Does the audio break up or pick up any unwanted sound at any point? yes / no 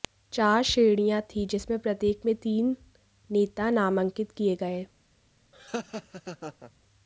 yes